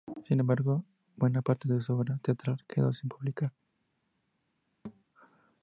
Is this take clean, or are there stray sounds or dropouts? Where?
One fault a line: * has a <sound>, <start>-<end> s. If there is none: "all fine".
* has a thud, 4.8-5.0 s